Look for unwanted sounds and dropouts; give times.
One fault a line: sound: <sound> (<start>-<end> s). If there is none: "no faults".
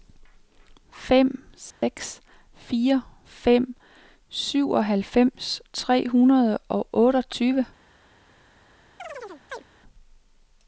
sound: dropout (1.7-1.8 s)
sound: chirp (9.0-9.7 s)